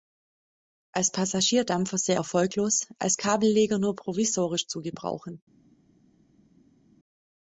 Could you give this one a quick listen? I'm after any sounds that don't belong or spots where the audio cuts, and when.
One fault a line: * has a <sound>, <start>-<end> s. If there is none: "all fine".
all fine